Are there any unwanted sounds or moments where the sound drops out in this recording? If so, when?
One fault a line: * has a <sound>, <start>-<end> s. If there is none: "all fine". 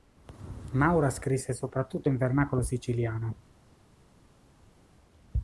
all fine